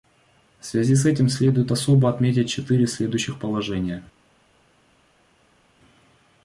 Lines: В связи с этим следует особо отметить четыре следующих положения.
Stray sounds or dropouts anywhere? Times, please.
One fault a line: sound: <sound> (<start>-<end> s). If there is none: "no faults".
no faults